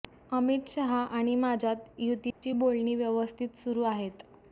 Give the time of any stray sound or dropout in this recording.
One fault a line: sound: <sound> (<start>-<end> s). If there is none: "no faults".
sound: dropout (2.3-2.4 s)